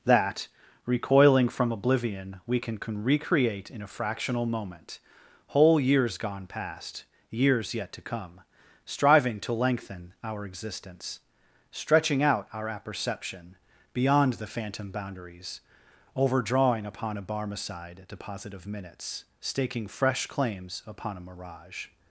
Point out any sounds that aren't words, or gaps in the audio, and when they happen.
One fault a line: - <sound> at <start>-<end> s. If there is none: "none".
none